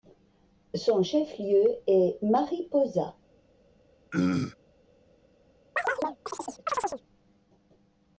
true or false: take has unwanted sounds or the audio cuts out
true